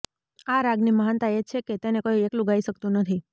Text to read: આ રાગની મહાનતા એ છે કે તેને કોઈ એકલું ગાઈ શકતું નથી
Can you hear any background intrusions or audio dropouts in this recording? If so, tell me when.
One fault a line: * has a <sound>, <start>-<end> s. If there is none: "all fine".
all fine